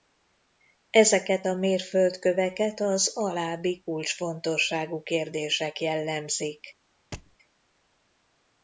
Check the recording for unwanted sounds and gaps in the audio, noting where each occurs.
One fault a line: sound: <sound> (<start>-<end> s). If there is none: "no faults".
sound: thud (7.1-7.4 s)